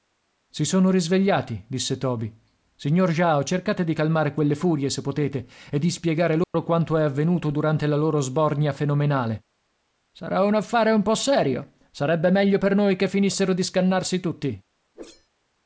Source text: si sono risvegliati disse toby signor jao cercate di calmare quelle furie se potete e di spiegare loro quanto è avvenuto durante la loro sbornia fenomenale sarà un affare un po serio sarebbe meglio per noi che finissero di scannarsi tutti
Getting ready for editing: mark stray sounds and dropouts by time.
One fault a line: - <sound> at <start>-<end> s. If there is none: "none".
- dropout at 6.4-6.5 s
- whoosh at 14.9-15.3 s